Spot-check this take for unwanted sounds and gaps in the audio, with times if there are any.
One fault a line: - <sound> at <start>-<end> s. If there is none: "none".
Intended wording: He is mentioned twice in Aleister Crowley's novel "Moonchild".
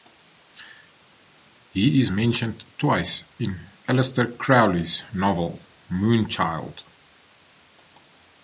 none